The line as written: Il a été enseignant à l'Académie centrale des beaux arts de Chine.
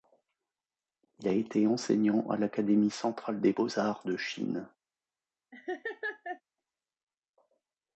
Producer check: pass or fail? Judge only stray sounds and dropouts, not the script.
fail